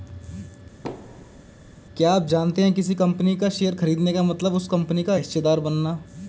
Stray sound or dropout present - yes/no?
yes